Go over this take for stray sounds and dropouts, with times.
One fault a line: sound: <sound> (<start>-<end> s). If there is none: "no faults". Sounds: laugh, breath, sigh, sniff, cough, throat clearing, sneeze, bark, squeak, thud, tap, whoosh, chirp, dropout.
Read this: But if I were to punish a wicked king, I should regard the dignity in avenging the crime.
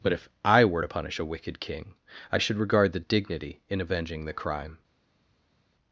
no faults